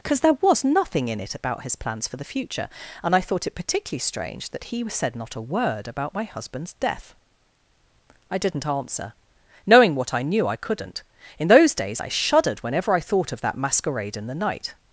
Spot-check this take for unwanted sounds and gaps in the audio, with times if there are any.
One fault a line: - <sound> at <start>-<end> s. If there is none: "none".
none